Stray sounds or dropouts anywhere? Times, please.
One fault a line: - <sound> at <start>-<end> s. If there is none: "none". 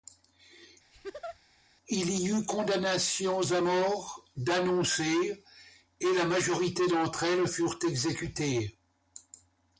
- laugh at 0.9-1.4 s